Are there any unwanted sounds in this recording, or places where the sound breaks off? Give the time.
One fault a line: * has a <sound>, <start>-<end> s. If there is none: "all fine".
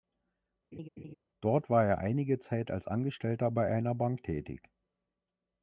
* has a laugh, 0.7-1.1 s